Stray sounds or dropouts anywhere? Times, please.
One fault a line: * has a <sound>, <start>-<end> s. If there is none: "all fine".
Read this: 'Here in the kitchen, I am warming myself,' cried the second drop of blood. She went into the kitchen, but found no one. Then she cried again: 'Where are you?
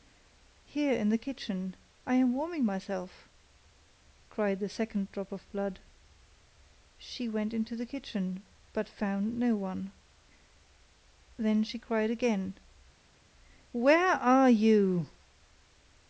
all fine